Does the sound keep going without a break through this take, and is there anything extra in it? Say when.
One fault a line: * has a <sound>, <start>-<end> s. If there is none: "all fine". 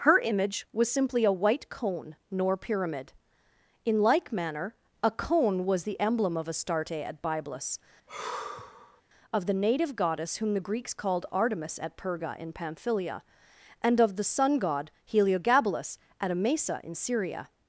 * has a sigh, 8.1-9.0 s